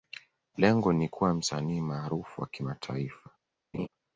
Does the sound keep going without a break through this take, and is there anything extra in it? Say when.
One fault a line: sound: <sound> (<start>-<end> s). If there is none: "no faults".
sound: laugh (3.7-3.9 s)